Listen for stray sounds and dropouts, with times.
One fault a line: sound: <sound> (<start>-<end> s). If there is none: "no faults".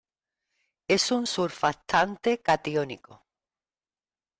no faults